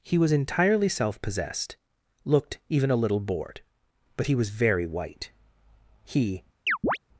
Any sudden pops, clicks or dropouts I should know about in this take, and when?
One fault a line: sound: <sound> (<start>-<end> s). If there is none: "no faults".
sound: chirp (6.7-7.0 s)